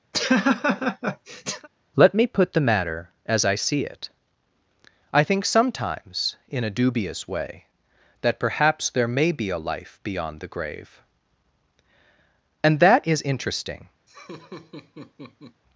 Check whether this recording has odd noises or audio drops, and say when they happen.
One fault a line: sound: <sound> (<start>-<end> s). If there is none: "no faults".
sound: laugh (0.1-1.7 s)
sound: laugh (14.1-15.6 s)